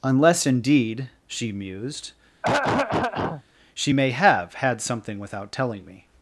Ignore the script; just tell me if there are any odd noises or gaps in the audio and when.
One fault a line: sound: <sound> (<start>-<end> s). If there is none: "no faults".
sound: throat clearing (2.4-3.4 s)